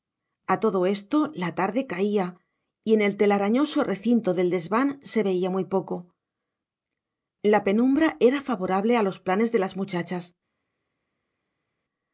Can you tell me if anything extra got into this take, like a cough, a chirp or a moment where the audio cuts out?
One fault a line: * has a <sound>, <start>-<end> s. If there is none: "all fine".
all fine